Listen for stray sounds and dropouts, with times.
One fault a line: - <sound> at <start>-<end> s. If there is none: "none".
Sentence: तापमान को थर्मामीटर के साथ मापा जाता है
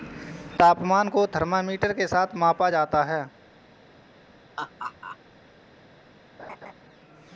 - laugh at 4.6-5.2 s
- laugh at 6.4-6.7 s